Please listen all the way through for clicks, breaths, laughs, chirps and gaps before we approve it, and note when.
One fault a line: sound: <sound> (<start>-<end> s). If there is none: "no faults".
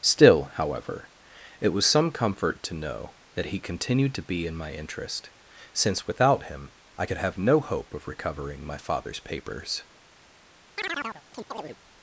sound: chirp (10.8-11.8 s)